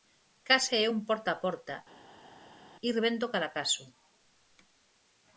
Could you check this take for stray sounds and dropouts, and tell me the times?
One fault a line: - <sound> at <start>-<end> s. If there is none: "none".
none